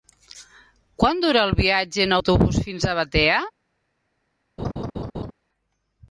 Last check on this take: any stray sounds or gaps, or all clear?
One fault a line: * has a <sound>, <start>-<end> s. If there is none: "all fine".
* has a laugh, 4.6-5.3 s